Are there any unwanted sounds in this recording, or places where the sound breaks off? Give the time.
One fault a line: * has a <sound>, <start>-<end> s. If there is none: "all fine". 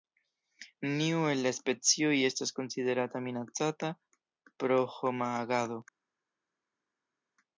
all fine